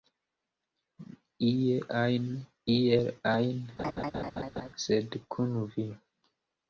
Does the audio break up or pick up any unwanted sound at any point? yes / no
yes